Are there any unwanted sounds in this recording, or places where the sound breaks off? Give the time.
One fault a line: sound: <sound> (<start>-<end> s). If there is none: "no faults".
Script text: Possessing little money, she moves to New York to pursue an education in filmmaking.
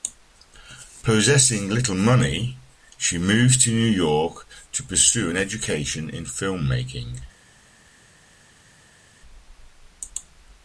no faults